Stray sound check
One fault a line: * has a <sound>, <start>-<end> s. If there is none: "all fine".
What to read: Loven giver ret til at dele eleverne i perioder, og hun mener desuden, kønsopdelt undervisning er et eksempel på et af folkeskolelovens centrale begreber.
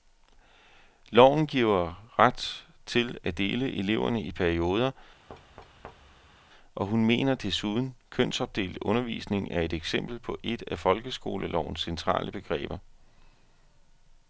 * has a thud, 5.3-6.4 s